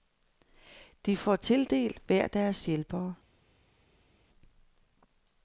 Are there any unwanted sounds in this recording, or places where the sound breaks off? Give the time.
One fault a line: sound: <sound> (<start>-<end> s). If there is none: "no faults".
no faults